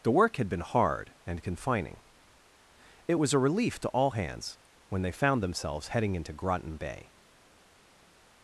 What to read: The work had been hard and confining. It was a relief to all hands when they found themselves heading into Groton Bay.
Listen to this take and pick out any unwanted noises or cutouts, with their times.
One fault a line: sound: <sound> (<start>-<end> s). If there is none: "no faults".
no faults